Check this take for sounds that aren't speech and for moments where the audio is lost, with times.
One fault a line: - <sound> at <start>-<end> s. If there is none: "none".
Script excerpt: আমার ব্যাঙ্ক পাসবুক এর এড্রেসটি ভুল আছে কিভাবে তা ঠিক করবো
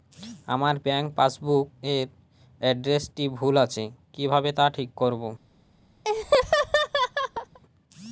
- laugh at 6.0-7.6 s